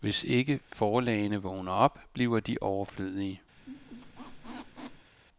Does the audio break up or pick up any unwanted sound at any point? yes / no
yes